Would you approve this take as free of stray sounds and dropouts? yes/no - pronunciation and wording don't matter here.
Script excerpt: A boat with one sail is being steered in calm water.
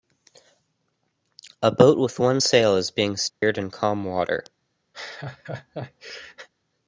no